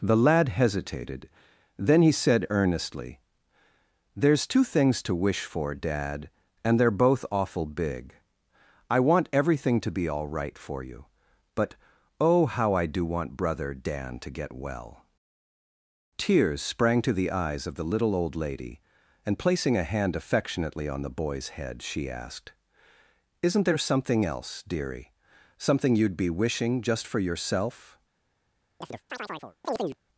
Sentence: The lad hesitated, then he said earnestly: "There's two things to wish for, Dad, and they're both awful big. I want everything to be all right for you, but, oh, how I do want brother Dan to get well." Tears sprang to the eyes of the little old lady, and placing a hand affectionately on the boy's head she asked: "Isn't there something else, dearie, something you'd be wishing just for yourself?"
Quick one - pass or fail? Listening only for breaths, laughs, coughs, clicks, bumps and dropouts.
fail